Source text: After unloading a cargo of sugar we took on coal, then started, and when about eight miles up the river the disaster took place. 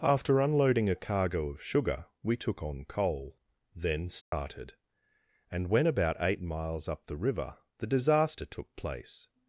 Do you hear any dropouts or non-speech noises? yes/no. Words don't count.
yes